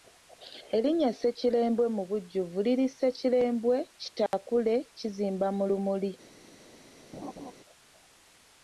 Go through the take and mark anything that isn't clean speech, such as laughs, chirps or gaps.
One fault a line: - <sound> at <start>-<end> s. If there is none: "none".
- dropout at 4.3-4.3 s
- laugh at 7.1-7.5 s